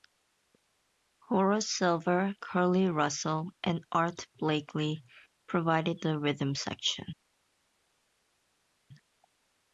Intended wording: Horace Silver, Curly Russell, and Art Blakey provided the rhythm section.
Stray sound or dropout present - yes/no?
no